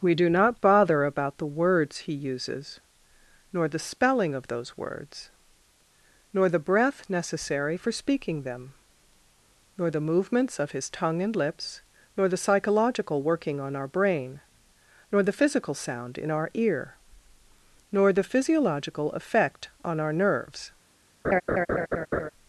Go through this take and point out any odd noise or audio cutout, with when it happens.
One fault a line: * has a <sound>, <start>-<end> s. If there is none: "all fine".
* has a laugh, 21.2-22.3 s